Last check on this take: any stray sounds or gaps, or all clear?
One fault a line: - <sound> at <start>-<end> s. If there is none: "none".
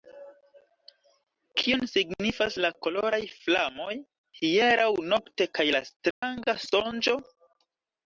- dropout at 6.1-6.2 s